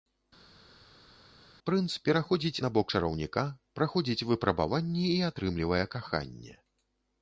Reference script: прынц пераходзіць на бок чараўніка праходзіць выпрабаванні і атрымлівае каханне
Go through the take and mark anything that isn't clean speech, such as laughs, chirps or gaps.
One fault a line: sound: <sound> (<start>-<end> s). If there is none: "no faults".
no faults